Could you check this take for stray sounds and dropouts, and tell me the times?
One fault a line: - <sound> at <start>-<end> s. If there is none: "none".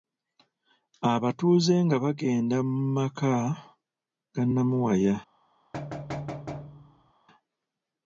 - thud at 5.7-7.1 s